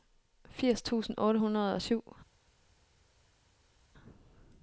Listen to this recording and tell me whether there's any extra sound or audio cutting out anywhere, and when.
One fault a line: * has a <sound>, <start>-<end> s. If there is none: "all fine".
all fine